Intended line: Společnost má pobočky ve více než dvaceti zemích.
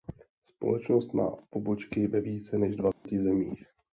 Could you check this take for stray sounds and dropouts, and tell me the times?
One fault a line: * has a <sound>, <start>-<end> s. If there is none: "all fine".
* has a dropout, 2.9-3.1 s